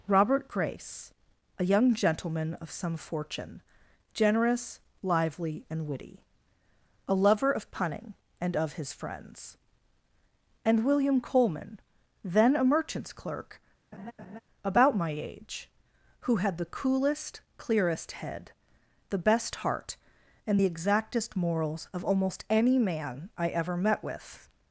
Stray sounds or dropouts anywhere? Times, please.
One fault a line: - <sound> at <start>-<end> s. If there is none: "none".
- laugh at 13.9-14.4 s